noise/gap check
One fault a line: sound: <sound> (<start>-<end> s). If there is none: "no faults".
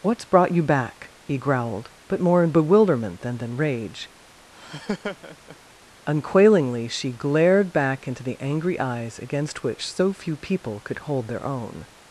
sound: laugh (4.5-5.6 s)